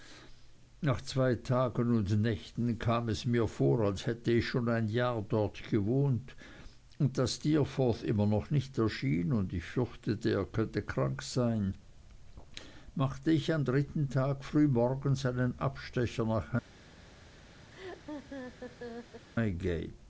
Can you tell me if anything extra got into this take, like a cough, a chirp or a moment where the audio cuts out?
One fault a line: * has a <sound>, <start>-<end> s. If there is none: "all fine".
* has a laugh, 17.7-19.3 s